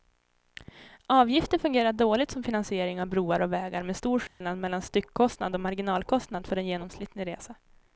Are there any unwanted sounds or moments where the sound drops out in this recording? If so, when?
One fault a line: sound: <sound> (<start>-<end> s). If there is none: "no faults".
sound: dropout (4.3-4.4 s)